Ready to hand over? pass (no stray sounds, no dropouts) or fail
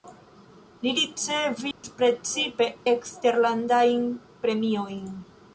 fail